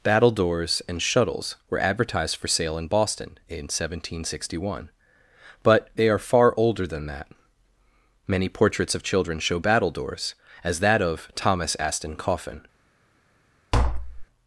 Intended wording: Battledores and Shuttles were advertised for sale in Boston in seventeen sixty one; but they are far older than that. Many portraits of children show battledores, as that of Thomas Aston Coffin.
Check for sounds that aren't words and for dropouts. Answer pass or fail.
fail